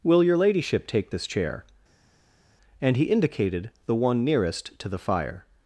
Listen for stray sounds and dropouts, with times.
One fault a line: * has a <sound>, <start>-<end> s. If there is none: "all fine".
all fine